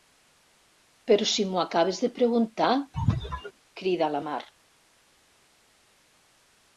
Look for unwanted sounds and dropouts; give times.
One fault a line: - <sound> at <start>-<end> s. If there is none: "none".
- sneeze at 2.9-3.5 s